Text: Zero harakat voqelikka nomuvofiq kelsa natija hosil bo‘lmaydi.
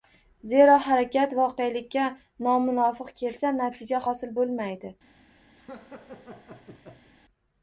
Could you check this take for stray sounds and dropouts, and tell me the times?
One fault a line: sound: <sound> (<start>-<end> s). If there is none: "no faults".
sound: laugh (5.6-7.1 s)